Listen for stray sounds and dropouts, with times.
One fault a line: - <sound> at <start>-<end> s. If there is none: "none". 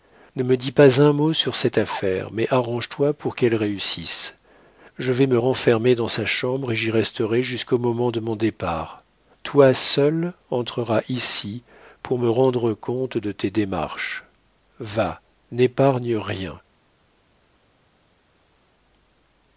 none